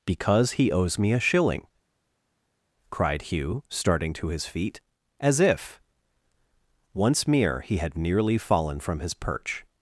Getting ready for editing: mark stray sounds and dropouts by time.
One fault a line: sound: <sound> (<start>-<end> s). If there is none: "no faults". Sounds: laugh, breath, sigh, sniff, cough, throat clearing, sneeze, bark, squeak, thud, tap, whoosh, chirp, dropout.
no faults